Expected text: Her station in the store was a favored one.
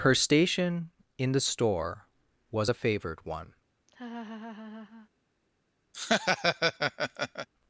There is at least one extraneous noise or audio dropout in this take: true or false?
true